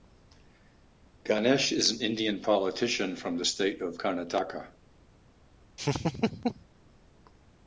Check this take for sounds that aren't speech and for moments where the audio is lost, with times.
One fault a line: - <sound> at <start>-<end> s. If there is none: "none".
- laugh at 5.8-6.6 s